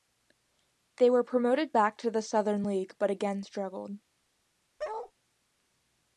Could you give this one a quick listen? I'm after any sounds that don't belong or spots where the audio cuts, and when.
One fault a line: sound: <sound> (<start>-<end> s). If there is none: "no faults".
sound: bark (4.8-5.1 s)